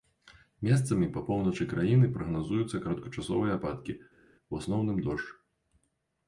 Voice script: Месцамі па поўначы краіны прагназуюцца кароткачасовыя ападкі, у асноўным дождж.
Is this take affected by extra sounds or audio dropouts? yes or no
no